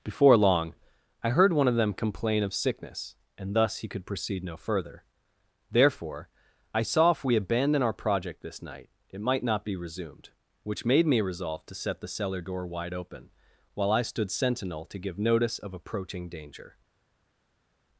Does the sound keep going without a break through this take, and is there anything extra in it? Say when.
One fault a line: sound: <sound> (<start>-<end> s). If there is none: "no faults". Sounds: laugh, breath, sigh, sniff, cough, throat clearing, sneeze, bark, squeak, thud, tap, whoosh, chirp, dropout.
no faults